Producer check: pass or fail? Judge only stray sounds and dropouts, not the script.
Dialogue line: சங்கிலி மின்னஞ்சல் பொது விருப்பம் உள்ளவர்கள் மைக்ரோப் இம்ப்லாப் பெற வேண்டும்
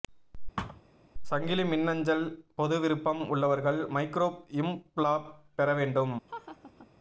fail